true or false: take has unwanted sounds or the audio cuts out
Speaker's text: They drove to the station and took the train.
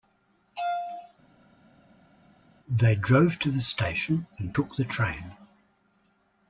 false